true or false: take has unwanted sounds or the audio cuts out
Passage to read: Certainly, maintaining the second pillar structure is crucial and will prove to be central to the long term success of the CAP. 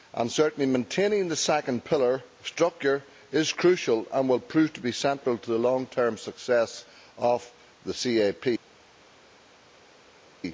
false